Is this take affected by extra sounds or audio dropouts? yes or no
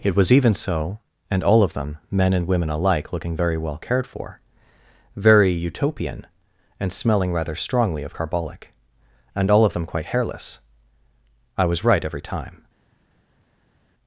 no